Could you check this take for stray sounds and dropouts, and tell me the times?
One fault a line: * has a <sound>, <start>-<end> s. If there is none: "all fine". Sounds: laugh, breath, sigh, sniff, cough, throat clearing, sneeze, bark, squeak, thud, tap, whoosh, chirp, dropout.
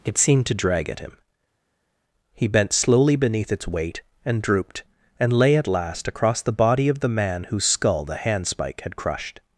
all fine